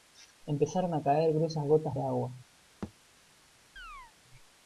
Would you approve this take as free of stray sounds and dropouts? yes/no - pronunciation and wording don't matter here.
no